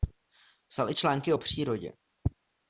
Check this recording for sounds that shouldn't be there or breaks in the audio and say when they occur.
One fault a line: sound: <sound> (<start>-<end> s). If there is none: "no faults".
no faults